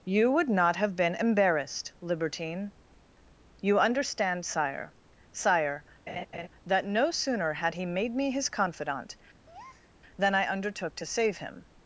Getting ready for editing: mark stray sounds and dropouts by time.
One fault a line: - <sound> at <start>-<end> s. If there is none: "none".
- laugh at 6.1-6.5 s
- breath at 9.5-9.9 s